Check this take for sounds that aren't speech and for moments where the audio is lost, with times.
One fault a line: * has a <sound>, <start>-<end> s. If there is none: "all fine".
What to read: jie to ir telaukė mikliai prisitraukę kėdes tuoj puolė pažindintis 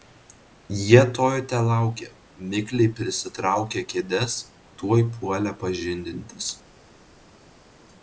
all fine